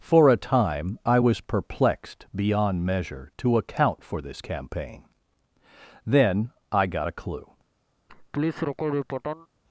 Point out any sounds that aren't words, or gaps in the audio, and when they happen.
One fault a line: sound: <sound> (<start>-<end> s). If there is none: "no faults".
sound: laugh (8.1-9.5 s)